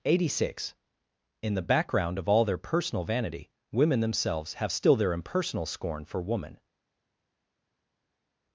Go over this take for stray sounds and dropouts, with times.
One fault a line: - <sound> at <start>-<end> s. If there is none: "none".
none